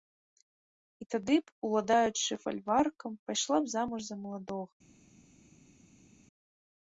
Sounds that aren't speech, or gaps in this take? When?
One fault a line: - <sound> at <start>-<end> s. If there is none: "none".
none